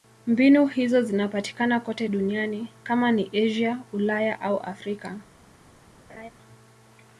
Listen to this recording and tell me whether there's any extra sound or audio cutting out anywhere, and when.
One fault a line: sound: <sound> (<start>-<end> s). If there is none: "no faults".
sound: laugh (6.1-6.3 s)